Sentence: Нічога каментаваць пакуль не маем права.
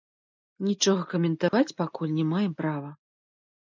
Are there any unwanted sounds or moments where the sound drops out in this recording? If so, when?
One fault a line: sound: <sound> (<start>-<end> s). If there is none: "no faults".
sound: dropout (1.5-1.5 s)